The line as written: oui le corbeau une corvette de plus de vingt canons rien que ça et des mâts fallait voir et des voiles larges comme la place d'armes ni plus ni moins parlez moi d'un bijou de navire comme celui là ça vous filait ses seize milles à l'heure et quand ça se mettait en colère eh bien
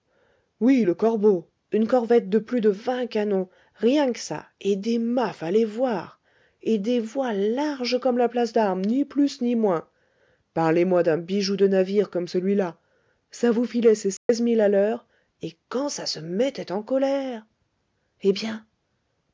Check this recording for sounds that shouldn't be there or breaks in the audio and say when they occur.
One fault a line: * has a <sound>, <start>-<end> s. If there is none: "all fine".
* has a dropout, 14.2-14.3 s